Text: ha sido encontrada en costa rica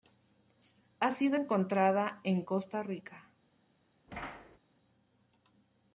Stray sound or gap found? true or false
true